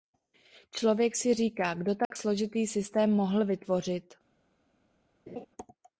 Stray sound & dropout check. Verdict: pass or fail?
fail